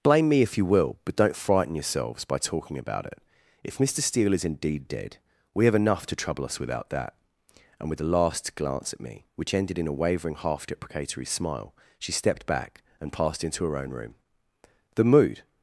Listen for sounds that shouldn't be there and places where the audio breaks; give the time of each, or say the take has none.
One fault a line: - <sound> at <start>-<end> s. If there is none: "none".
none